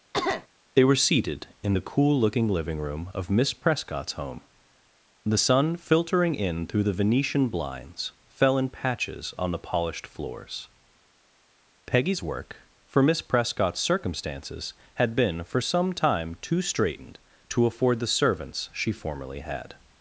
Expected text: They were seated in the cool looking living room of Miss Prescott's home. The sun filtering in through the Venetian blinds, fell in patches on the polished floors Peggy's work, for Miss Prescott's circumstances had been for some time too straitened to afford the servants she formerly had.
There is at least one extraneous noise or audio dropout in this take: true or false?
true